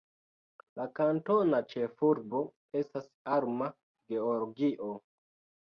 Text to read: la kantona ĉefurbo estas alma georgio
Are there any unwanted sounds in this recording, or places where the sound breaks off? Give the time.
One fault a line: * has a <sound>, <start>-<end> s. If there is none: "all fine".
all fine